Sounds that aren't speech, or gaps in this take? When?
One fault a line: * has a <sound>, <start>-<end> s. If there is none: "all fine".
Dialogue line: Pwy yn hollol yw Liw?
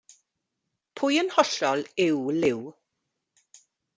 all fine